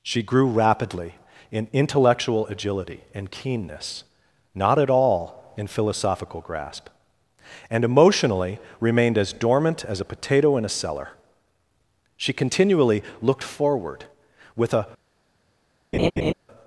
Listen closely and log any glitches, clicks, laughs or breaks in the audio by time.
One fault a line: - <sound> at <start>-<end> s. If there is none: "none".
- laugh at 15.9-16.3 s